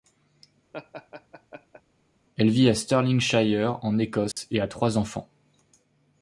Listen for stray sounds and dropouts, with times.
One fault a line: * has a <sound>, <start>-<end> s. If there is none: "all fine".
* has a laugh, 0.7-1.8 s
* has a dropout, 4.3-4.4 s